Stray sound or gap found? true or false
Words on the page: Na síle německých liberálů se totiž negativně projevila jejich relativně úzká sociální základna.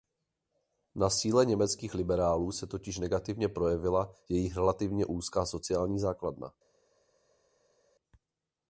false